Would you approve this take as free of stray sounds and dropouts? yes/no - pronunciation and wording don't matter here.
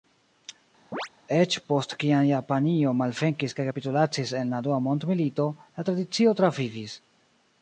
no